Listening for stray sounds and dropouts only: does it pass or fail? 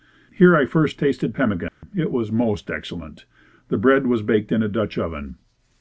fail